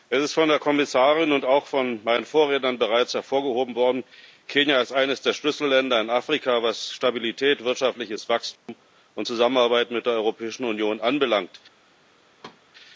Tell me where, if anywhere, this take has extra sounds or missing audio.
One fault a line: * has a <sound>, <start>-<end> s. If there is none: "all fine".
* has a dropout, 8.6-8.7 s
* has a thud, 12.4-12.6 s